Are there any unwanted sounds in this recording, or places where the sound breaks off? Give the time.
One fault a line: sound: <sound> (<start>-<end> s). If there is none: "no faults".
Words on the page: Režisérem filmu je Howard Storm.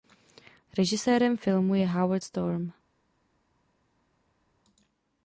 no faults